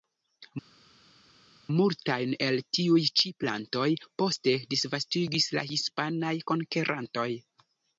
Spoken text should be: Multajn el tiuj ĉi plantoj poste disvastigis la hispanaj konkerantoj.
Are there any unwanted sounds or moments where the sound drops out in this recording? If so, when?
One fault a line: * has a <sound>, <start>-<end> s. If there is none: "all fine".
all fine